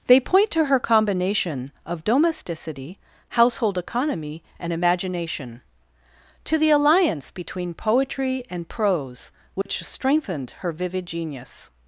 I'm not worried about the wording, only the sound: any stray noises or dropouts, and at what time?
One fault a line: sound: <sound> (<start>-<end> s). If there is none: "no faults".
sound: dropout (9.6-9.7 s)